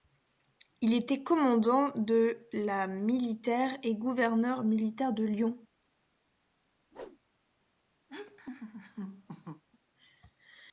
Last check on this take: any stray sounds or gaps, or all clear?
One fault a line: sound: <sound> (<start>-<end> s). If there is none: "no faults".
sound: whoosh (6.9-7.2 s)
sound: laugh (8.1-9.6 s)